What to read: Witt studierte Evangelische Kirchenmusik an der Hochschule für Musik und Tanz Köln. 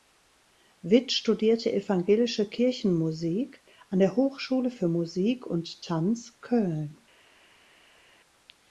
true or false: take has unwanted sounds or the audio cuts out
false